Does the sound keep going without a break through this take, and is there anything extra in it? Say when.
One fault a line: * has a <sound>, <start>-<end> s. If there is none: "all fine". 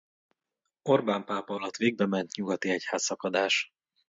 all fine